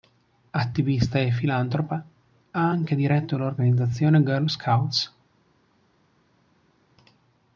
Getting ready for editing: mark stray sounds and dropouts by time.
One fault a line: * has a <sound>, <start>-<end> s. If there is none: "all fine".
all fine